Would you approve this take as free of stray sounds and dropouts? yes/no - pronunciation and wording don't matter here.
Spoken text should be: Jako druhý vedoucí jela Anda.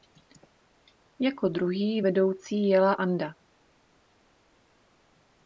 yes